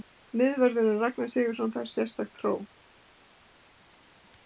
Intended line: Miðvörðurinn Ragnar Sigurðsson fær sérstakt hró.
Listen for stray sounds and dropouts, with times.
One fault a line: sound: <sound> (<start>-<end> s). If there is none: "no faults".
no faults